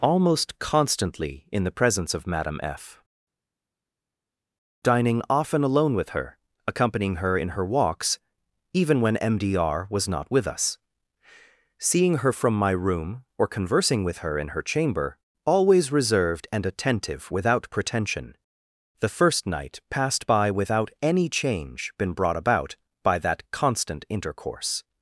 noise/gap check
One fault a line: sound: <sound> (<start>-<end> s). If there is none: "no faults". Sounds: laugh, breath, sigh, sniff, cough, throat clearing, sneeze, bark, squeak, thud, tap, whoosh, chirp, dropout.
no faults